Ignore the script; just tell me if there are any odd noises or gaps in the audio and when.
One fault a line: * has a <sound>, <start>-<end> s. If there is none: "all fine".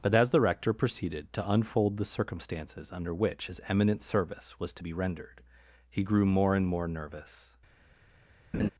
* has a laugh, 8.5-8.7 s